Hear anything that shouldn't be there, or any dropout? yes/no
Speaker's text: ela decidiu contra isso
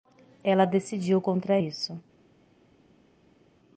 no